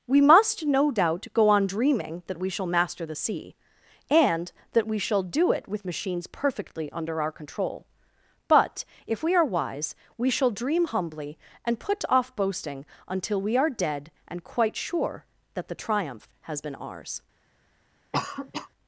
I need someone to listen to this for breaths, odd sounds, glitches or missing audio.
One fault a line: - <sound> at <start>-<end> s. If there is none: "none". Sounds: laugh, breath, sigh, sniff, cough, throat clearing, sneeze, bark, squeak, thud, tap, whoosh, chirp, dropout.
- cough at 18.1-18.7 s